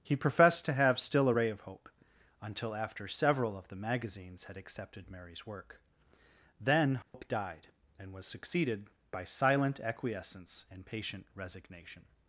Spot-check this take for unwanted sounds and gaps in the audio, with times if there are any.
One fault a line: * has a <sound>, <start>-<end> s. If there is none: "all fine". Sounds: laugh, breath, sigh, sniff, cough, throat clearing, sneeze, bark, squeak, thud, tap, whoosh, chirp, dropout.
* has a dropout, 7.0-7.1 s